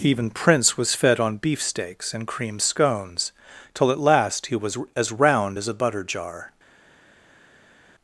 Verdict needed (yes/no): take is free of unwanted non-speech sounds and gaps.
yes